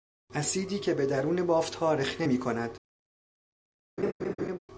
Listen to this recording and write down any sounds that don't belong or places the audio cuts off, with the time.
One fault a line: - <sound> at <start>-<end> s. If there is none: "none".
- laugh at 4.0-4.6 s